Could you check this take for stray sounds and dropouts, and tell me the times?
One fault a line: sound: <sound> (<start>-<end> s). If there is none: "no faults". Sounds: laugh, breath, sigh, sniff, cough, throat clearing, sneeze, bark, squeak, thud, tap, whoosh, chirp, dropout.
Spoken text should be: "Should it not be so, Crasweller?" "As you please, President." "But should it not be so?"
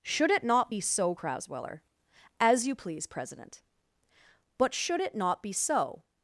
no faults